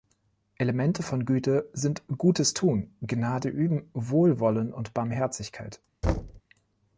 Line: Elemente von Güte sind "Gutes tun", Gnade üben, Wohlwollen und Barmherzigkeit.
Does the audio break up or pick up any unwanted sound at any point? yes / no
yes